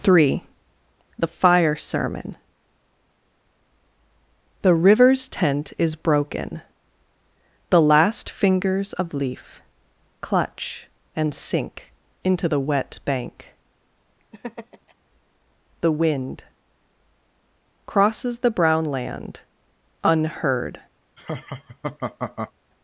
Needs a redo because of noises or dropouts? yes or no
yes